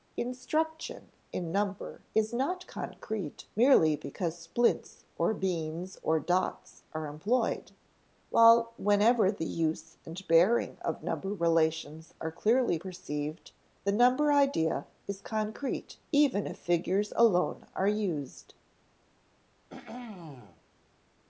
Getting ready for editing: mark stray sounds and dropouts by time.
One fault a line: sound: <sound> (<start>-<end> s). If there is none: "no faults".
sound: throat clearing (19.7-20.6 s)